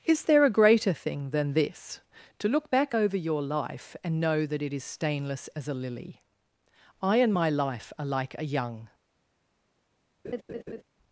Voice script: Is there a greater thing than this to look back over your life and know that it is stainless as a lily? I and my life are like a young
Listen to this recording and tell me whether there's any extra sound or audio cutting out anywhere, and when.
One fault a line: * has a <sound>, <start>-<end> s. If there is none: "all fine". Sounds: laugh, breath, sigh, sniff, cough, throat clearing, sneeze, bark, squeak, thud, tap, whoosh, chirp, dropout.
* has a laugh, 10.2-10.8 s